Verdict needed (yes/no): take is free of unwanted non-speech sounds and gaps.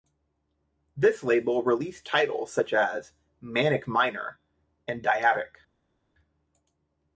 yes